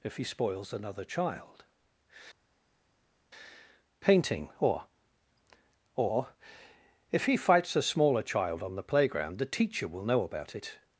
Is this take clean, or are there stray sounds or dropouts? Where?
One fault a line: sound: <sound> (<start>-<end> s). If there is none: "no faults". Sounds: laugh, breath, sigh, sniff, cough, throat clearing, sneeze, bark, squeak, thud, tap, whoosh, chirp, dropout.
no faults